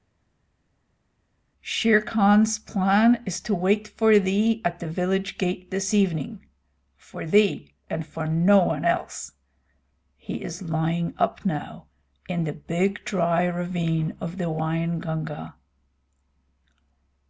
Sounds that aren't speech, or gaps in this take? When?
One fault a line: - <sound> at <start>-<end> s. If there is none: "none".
none